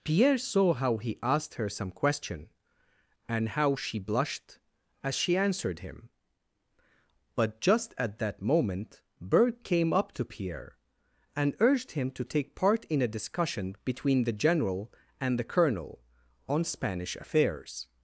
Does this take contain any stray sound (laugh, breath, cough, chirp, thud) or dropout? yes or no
no